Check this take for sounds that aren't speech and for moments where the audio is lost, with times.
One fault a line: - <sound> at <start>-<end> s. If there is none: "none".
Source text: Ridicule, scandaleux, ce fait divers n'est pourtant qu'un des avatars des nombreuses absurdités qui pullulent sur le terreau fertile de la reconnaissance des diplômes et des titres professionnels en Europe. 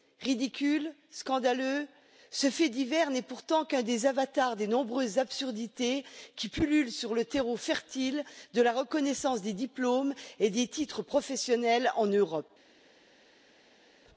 none